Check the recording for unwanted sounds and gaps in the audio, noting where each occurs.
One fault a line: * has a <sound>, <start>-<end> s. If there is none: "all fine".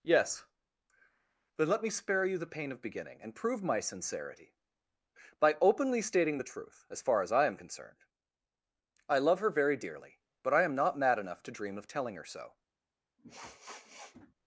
* has a sniff, 13.2-14.3 s